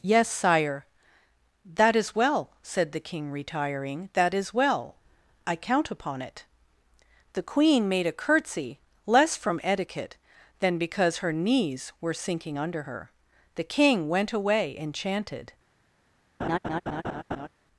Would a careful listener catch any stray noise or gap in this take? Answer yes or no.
yes